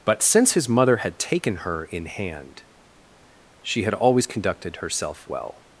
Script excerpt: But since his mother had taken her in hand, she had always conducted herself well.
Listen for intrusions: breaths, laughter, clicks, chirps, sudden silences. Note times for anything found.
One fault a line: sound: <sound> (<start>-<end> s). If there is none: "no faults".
no faults